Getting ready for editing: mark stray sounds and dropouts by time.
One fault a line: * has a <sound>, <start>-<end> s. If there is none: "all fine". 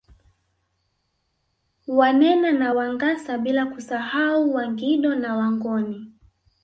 all fine